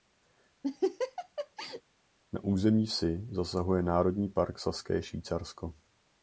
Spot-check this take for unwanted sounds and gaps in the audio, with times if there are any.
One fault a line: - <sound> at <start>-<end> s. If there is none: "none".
- laugh at 0.6-1.8 s